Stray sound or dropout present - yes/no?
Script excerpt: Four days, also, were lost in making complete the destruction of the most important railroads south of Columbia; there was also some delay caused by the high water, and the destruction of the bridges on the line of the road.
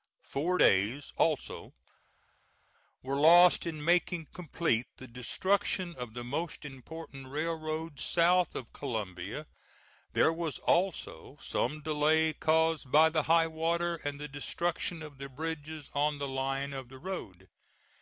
no